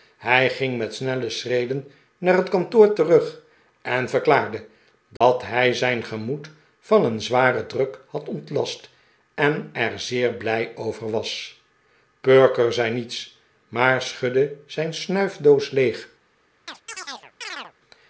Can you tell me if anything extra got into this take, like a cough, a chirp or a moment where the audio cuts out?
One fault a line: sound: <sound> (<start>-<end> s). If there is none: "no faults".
sound: dropout (5.2-5.2 s)
sound: chirp (16.7-17.7 s)